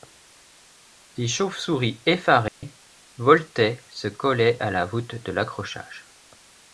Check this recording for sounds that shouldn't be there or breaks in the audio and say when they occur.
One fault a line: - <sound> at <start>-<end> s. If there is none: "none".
- dropout at 2.5-2.6 s